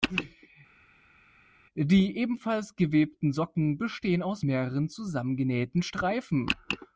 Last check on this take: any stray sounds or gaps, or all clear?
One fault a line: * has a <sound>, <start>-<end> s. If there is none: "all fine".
all fine